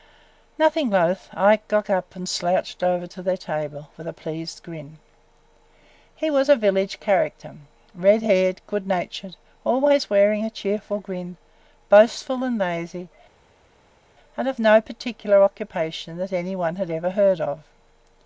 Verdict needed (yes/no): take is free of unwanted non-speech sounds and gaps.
yes